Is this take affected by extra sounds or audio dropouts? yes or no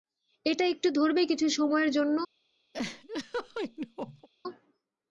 yes